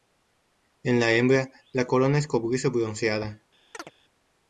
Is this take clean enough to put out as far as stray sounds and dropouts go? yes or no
no